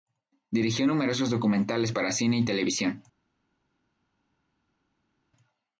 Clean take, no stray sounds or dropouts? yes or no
yes